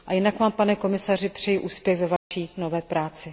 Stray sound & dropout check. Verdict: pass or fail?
fail